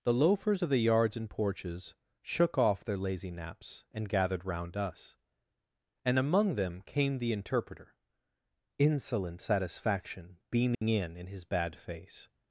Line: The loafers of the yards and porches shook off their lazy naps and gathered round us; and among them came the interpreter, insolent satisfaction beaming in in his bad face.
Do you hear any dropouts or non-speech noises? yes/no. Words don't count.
yes